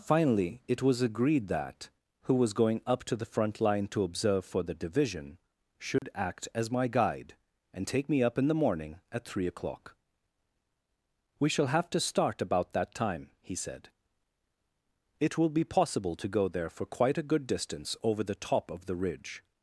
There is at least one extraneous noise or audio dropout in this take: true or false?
true